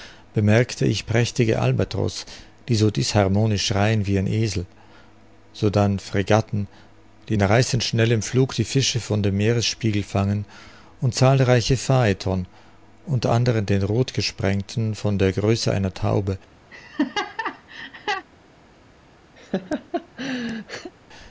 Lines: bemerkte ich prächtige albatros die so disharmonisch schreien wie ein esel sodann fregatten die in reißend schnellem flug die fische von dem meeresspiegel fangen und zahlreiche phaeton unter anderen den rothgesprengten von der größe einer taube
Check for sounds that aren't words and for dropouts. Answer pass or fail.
fail